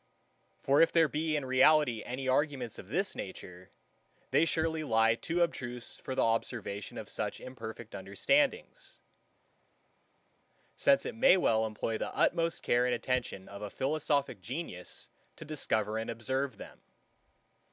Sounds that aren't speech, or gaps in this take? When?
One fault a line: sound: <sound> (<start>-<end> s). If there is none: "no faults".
no faults